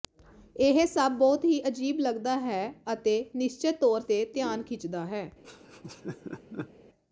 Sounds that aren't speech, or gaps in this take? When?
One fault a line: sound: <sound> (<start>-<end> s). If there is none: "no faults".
sound: laugh (5.4-6.7 s)